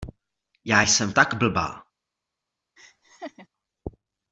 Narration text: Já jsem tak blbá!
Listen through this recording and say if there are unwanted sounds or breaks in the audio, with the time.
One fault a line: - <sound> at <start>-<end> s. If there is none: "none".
- laugh at 2.8-3.5 s